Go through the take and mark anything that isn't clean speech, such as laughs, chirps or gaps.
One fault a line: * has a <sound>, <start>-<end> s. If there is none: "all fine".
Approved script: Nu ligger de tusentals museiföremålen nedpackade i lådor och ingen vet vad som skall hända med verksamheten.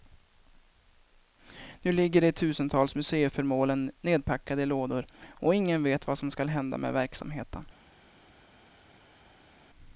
all fine